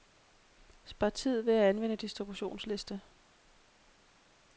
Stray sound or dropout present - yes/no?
no